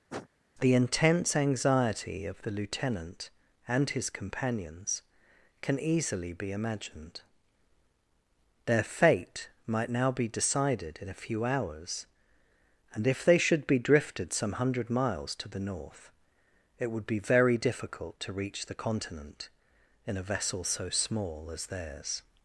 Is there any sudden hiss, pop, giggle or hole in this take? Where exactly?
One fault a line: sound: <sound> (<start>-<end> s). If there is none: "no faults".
sound: sniff (0.1-0.3 s)